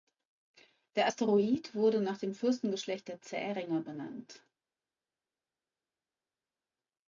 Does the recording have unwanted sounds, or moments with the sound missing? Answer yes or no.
no